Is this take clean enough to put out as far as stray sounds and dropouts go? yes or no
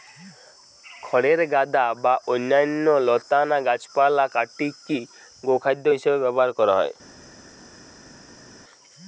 yes